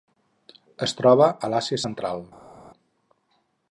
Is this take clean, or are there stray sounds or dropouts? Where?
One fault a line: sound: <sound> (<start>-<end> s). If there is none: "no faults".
no faults